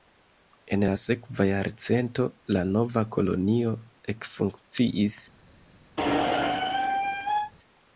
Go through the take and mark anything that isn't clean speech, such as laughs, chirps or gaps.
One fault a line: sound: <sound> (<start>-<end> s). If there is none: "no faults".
sound: squeak (6.0-7.5 s)